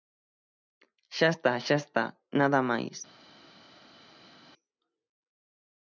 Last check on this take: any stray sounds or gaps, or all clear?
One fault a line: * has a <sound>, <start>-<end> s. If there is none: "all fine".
all fine